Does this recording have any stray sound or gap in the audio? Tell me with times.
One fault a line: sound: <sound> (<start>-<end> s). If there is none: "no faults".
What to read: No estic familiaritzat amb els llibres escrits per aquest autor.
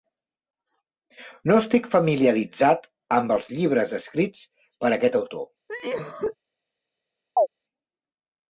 sound: cough (5.7-6.4 s)
sound: chirp (7.4-7.5 s)